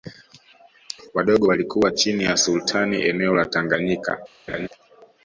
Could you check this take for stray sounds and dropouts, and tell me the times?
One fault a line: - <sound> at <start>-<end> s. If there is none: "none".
- laugh at 4.5-4.7 s